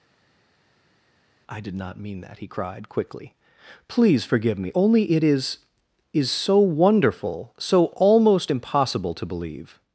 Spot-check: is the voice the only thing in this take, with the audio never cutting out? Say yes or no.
yes